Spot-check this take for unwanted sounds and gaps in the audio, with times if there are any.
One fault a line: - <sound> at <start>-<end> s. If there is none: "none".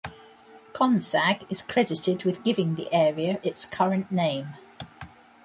none